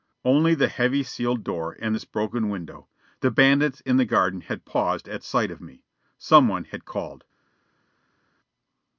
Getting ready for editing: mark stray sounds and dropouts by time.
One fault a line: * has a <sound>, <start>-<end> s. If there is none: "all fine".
all fine